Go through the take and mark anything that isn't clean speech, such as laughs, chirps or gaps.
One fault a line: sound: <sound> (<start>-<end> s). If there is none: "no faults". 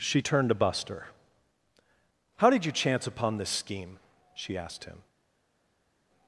no faults